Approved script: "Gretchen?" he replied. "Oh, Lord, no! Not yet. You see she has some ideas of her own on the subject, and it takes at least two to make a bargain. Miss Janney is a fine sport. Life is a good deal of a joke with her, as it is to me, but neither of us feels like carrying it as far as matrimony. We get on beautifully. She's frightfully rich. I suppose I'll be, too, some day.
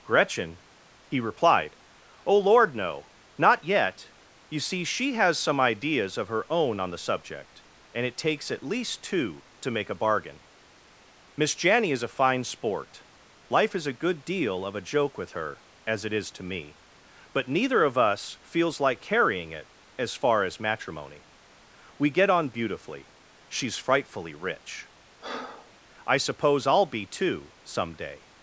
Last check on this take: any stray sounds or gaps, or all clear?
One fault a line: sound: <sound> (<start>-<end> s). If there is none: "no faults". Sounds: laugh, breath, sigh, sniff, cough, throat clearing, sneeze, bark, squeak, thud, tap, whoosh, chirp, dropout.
sound: breath (25.2-25.7 s)